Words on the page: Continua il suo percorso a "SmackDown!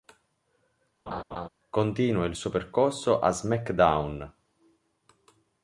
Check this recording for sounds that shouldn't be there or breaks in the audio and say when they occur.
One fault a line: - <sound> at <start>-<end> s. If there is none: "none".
- laugh at 1.1-1.5 s